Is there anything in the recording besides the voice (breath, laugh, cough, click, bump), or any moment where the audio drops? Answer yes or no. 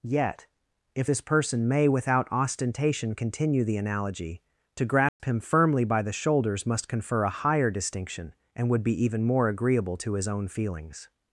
yes